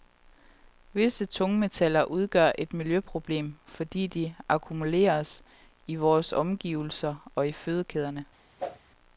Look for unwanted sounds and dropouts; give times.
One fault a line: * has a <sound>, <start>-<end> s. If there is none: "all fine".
* has a whoosh, 8.6-8.8 s